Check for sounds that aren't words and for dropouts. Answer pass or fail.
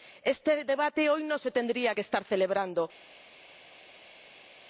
pass